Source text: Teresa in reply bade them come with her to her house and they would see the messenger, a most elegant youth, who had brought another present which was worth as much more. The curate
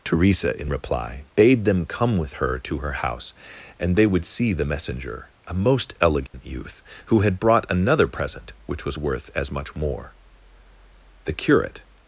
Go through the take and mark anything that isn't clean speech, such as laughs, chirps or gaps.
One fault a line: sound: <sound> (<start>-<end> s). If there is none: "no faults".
sound: dropout (6.3-6.3 s)